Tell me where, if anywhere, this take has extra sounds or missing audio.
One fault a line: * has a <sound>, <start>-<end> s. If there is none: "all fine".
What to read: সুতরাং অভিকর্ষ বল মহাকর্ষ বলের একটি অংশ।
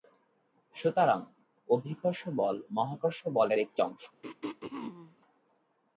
* has a throat clearing, 4.2-5.2 s